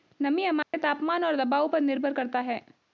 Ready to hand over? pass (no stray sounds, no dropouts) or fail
fail